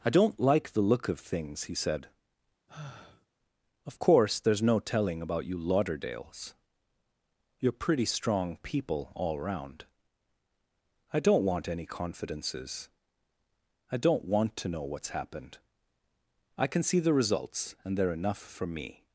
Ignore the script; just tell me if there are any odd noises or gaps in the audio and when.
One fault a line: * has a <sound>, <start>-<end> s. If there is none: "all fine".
* has a sigh, 2.7-3.3 s